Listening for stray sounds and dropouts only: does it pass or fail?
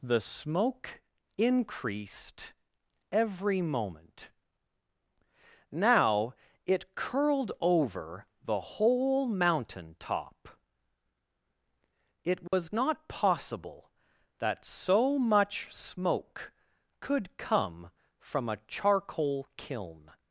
fail